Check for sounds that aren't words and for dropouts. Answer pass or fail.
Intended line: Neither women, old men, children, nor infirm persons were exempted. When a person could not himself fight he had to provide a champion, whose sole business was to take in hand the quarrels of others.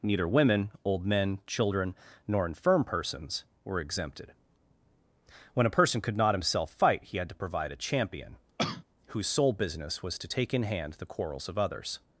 fail